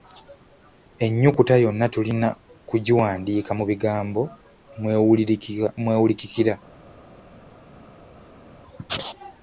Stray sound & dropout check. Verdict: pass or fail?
pass